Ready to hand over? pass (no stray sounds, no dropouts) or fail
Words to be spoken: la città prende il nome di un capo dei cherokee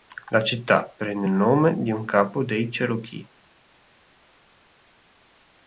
pass